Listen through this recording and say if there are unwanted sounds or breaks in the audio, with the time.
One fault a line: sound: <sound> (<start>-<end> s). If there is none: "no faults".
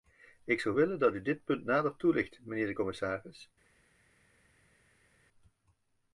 no faults